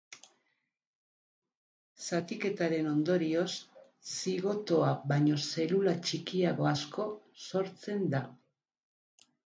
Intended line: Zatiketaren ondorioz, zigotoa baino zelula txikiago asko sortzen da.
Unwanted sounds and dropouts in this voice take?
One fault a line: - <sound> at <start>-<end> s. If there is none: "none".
none